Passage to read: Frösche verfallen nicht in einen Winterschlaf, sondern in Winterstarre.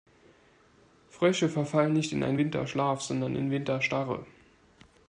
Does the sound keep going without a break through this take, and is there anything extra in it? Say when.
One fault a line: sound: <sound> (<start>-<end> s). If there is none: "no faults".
no faults